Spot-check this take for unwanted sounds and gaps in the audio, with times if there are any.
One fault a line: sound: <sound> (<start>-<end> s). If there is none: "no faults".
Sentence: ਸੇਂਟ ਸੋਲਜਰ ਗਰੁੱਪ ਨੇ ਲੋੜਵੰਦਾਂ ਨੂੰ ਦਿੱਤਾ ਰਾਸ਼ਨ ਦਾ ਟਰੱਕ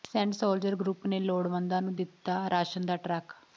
no faults